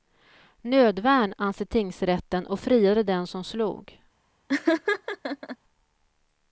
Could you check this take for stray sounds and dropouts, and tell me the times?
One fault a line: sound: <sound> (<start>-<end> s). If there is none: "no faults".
sound: laugh (4.5-5.6 s)